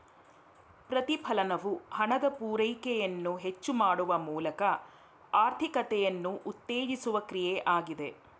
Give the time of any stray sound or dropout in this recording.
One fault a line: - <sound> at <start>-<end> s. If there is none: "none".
none